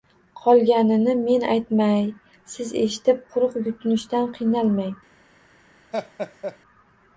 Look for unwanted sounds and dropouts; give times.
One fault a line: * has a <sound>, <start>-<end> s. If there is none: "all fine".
* has a laugh, 5.9-6.6 s